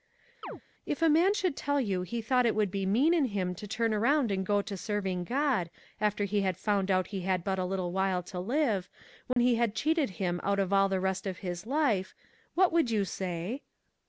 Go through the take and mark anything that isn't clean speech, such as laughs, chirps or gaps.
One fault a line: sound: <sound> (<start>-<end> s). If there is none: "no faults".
sound: chirp (0.4-0.6 s)
sound: dropout (9.3-9.4 s)